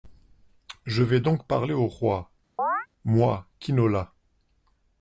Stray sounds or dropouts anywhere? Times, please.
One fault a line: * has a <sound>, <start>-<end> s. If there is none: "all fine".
* has a chirp, 2.6-2.9 s